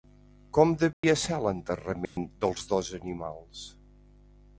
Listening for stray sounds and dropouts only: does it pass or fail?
fail